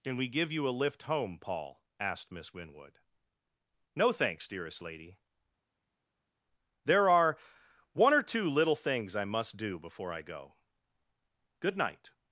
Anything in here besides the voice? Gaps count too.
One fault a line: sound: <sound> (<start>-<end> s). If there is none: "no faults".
no faults